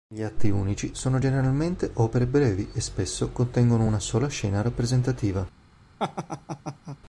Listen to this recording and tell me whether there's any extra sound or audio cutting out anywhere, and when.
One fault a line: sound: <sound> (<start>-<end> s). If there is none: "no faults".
sound: laugh (6.0-7.0 s)